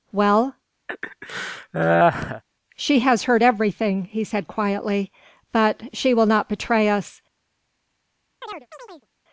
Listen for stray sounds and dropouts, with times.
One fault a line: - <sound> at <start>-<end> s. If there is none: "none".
- laugh at 0.9-2.4 s
- chirp at 8.4-9.1 s